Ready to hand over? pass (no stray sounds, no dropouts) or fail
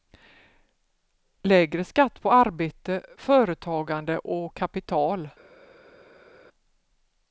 pass